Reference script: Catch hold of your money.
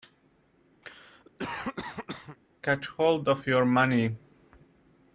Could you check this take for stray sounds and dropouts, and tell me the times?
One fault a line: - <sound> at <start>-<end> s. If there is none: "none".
- cough at 0.8-2.4 s